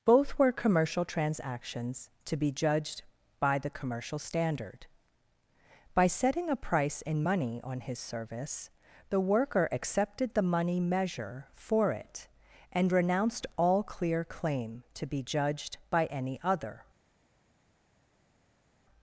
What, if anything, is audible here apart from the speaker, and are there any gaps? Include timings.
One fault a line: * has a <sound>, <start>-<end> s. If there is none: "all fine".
all fine